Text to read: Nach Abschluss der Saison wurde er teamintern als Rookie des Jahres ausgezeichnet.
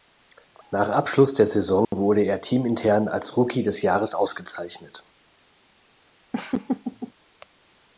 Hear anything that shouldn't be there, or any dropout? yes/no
yes